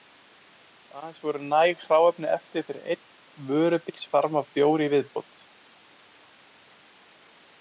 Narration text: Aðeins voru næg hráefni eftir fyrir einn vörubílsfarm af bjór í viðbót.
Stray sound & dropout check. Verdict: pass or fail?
pass